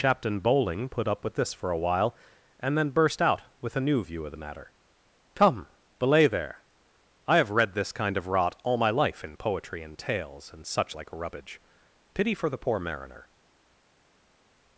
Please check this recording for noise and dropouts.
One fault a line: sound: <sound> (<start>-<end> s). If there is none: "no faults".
no faults